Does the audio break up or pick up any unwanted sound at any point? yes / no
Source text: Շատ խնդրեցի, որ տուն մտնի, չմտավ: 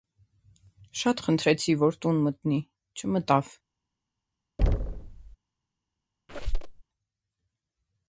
yes